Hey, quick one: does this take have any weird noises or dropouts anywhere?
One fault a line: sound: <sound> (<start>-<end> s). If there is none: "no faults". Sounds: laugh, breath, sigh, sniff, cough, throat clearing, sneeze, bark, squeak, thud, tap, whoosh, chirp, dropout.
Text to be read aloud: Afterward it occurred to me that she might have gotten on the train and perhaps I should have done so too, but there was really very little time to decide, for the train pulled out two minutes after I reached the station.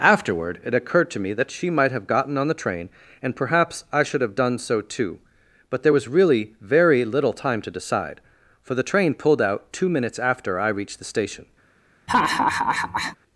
sound: laugh (12.1-13.2 s)